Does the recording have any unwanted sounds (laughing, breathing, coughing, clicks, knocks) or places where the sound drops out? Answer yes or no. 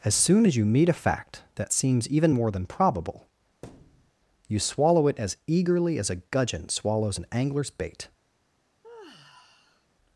yes